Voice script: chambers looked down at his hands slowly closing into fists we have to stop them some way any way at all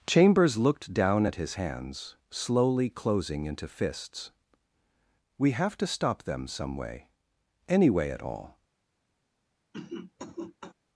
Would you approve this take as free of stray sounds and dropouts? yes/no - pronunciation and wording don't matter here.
no